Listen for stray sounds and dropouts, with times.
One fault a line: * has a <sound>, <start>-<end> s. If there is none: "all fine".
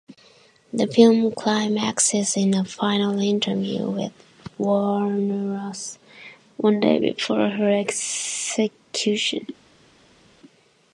all fine